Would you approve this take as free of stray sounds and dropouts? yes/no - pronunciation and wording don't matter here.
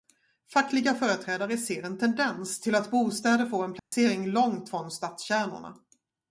no